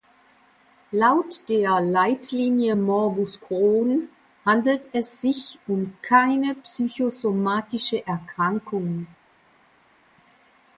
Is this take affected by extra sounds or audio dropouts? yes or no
no